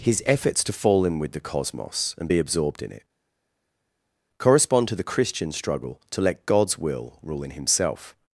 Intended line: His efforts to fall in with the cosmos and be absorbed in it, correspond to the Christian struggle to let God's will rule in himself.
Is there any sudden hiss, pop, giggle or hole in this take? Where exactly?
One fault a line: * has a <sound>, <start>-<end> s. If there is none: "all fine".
all fine